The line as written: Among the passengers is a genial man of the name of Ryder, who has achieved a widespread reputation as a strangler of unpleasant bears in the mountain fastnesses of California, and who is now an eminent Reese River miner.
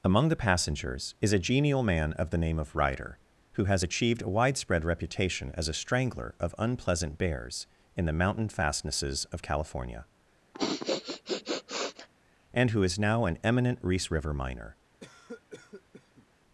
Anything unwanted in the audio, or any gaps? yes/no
yes